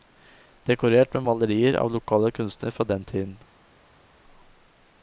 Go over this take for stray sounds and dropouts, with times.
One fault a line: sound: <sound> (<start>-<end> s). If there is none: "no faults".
no faults